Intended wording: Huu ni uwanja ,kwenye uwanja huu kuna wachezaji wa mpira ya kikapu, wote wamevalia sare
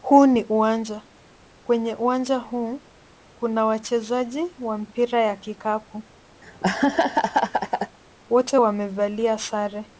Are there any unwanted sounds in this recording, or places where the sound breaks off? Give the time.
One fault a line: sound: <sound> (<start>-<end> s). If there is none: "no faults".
sound: laugh (6.4-8.0 s)